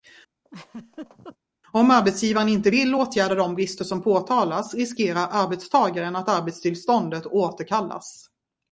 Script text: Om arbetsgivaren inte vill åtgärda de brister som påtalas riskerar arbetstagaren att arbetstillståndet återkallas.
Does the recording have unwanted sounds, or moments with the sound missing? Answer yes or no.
yes